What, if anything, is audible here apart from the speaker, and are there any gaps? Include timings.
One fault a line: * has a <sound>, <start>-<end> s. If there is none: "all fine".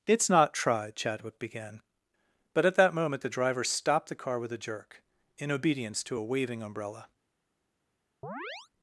* has a chirp, 8.2-8.7 s